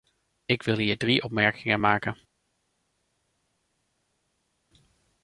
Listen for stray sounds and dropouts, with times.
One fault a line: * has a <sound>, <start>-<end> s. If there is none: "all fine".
all fine